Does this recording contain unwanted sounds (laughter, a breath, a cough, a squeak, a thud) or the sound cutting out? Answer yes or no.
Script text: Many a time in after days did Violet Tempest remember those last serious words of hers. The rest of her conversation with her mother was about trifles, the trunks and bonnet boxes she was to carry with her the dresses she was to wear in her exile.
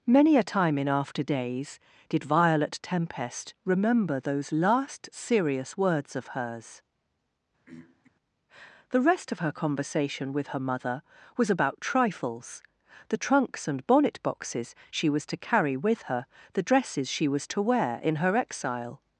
yes